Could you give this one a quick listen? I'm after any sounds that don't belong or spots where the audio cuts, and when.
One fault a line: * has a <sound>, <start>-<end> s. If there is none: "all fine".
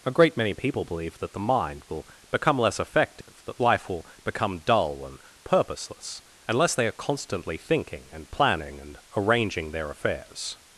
* has a dropout, 3.2-3.3 s